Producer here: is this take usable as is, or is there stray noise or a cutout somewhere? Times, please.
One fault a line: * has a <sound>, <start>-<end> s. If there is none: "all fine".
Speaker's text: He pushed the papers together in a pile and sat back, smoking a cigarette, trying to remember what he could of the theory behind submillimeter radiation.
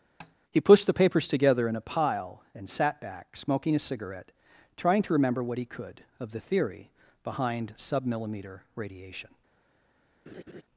* has a tap, 0.2-0.4 s
* has a laugh, 10.3-10.6 s